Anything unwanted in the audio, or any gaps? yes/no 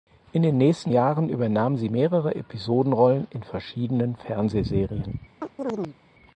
yes